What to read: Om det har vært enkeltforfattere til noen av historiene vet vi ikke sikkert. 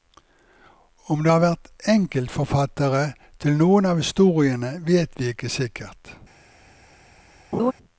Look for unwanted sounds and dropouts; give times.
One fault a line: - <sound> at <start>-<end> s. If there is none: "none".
- laugh at 7.5-7.7 s